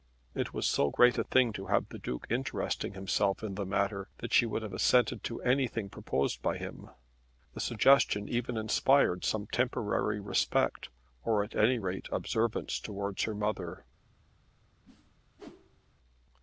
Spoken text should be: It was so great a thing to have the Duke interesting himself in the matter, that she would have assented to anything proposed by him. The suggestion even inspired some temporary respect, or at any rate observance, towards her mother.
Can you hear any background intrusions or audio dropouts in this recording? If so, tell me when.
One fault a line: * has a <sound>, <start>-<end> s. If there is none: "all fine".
* has a whoosh, 14.8-15.9 s